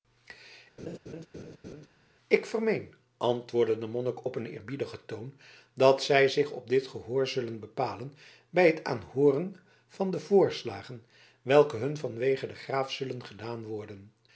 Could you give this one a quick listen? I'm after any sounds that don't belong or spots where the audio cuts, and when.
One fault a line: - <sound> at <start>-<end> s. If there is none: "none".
- laugh at 0.8-1.9 s